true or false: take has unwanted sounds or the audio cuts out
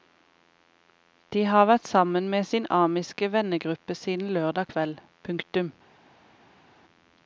false